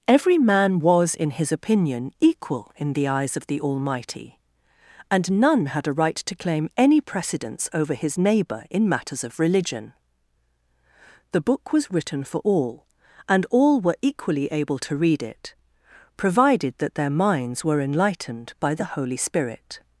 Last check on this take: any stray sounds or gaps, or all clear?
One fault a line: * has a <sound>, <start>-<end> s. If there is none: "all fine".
all fine